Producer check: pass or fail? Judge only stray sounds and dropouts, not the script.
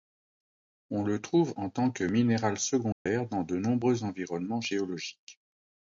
fail